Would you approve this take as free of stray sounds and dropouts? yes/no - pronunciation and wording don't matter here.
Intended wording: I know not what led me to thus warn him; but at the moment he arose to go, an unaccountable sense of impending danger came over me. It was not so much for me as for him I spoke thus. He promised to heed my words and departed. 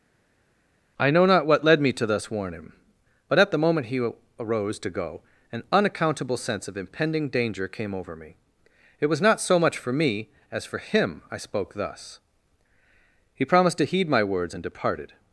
yes